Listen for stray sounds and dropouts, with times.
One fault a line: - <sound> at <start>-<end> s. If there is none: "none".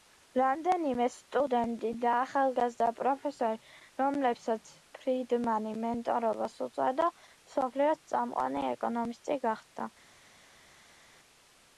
none